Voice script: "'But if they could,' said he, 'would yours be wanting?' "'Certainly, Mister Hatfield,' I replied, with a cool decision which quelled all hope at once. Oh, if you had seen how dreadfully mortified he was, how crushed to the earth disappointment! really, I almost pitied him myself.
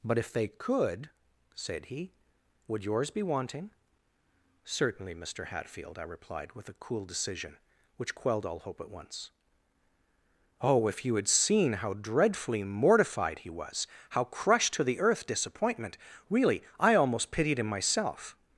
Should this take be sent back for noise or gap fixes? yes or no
no